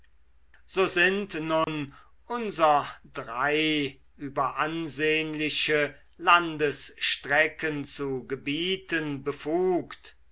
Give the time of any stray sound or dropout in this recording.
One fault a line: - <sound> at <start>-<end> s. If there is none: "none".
- dropout at 1.6-1.7 s